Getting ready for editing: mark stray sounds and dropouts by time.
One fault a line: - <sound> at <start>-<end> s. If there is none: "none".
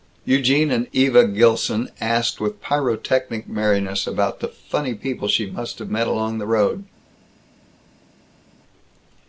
none